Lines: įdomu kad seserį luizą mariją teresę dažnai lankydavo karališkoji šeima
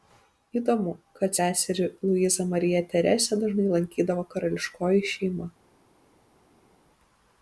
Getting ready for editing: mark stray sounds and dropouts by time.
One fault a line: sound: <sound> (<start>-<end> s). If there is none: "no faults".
no faults